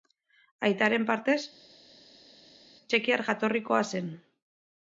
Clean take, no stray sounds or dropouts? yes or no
yes